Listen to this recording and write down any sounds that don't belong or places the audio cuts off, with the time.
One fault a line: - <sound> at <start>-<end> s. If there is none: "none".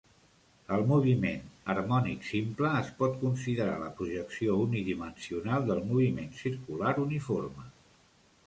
none